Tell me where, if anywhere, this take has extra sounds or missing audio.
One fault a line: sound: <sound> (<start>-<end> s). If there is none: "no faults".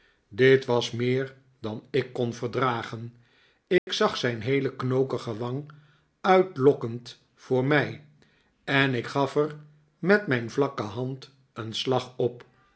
sound: dropout (3.8-3.9 s)